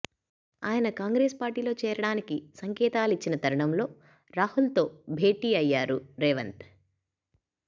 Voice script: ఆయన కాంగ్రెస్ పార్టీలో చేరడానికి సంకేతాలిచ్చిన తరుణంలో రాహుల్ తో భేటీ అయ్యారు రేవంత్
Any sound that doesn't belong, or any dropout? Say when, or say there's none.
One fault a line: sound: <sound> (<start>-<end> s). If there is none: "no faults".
no faults